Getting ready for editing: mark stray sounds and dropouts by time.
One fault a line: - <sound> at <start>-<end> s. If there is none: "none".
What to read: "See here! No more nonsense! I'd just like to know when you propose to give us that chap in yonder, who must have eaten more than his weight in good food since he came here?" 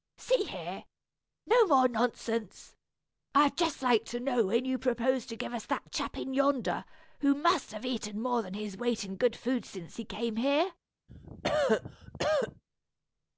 - cough at 11.1-12.6 s